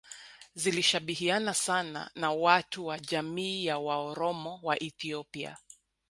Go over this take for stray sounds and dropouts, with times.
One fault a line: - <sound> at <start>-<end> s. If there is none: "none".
none